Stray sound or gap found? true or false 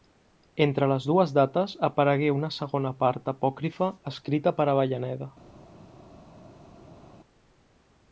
false